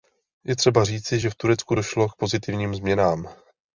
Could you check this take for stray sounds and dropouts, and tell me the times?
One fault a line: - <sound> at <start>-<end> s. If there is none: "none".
none